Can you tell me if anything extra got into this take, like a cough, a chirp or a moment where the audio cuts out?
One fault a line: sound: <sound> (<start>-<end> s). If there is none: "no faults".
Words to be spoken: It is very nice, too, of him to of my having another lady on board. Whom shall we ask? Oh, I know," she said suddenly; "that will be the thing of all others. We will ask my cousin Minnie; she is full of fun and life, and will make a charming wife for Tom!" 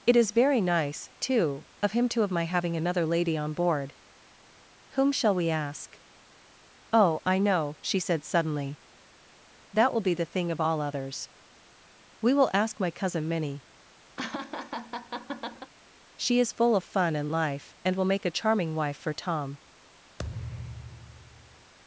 sound: laugh (14.2-15.7 s)
sound: thud (20.2-21.7 s)